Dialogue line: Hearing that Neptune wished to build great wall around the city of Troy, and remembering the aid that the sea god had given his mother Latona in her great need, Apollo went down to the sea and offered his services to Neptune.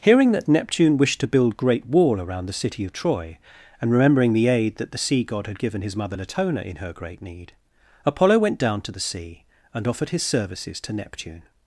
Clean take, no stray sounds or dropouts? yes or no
yes